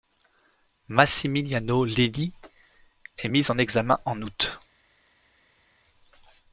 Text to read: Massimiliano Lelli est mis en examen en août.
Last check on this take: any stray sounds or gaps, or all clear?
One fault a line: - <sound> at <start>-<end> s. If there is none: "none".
none